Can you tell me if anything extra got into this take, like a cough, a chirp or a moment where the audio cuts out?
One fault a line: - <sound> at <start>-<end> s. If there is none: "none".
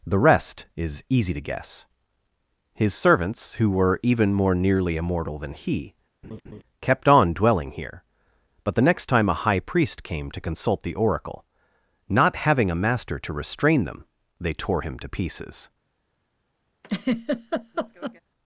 - laugh at 6.2-6.6 s
- laugh at 16.8-18.2 s